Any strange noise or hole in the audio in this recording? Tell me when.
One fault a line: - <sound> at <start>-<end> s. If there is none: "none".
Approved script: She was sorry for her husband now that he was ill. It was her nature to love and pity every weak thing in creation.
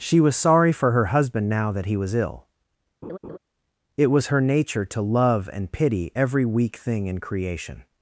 - laugh at 3.0-3.4 s